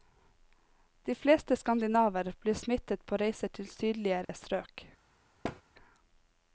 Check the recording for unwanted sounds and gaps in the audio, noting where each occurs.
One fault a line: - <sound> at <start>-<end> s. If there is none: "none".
- dropout at 4.2-4.3 s
- thud at 5.4-5.6 s